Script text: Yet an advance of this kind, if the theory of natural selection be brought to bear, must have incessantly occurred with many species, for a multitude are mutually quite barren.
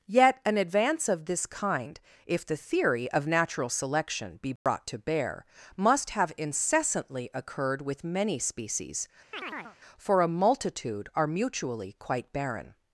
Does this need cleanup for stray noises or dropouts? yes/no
yes